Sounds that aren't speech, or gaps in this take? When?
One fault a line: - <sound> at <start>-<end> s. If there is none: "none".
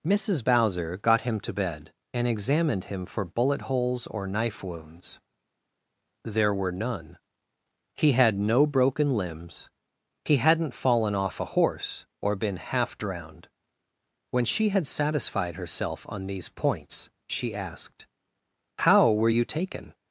none